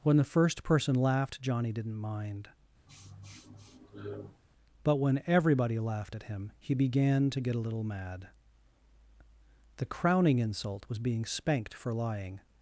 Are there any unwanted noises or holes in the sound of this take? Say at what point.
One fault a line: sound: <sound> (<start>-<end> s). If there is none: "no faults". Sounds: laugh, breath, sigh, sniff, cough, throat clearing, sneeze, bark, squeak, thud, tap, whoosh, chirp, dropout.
sound: sniff (2.9-4.4 s)